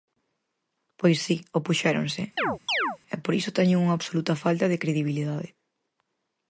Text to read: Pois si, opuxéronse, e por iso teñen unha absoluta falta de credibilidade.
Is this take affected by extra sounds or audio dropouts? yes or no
yes